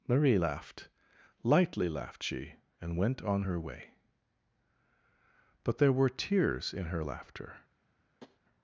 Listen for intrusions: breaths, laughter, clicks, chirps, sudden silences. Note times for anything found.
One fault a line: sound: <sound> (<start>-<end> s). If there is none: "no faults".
sound: tap (8.2-8.4 s)